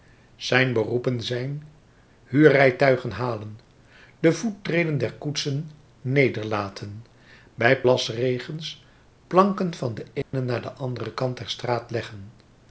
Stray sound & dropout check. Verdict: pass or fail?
fail